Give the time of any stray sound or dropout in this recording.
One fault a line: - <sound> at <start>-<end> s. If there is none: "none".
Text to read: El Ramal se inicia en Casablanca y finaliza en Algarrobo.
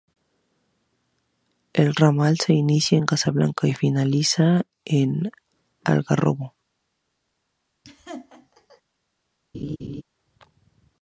- laugh at 7.8-8.8 s
- laugh at 9.5-10.0 s